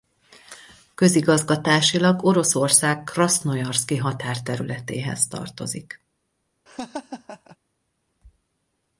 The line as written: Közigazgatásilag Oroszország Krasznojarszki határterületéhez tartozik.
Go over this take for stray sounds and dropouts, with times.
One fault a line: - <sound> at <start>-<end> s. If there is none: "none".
- laugh at 6.7-7.6 s